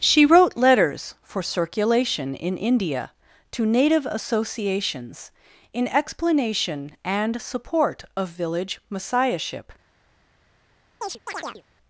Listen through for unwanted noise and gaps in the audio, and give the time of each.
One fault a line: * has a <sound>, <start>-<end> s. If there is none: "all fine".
* has a chirp, 11.0-11.6 s